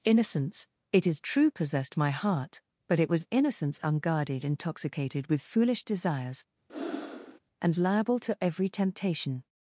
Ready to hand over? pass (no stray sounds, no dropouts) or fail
fail